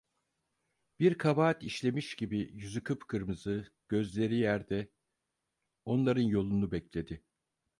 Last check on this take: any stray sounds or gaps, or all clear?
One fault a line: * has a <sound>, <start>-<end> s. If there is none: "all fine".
all fine